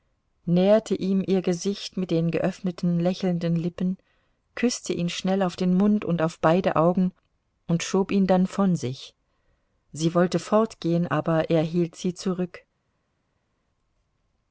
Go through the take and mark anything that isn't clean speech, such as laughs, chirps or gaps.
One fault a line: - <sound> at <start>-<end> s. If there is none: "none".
none